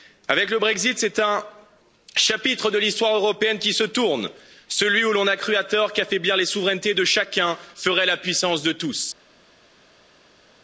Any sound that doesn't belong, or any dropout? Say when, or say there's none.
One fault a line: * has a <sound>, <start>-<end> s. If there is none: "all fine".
all fine